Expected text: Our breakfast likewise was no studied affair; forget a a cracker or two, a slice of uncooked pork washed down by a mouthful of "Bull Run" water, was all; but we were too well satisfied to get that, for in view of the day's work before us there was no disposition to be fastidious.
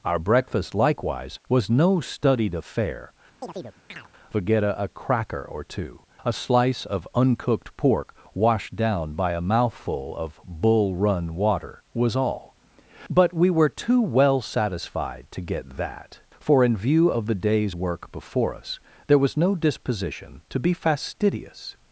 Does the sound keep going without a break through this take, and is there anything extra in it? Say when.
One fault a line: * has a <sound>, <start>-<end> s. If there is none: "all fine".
* has a chirp, 3.4-4.1 s